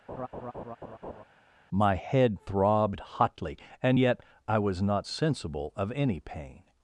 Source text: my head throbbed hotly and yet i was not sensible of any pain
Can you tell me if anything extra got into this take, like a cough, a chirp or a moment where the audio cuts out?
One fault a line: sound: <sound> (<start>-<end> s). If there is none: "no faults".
sound: laugh (0.1-1.2 s)